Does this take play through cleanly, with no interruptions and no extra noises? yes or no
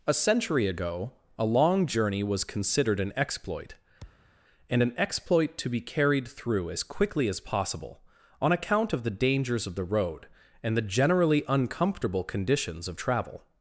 no